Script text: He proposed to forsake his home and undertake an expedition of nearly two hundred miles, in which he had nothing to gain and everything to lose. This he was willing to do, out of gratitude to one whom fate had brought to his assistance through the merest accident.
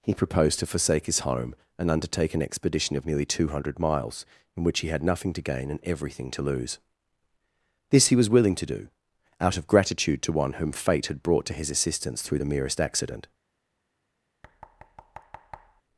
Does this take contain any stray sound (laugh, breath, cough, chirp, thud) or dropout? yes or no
yes